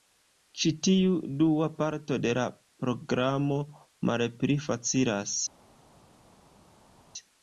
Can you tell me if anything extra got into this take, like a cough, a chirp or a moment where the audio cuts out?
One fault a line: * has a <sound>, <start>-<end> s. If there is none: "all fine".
all fine